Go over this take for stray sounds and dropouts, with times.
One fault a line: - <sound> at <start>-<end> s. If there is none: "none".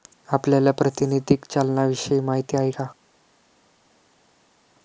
none